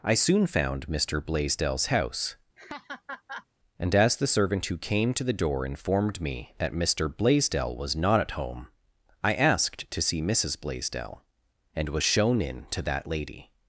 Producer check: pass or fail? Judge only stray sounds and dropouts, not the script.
fail